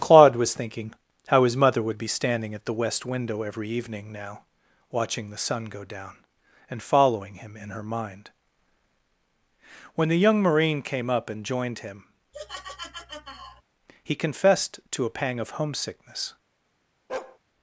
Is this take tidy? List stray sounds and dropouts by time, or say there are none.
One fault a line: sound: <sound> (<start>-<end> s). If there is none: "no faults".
sound: laugh (12.3-13.6 s)
sound: bark (17.1-17.4 s)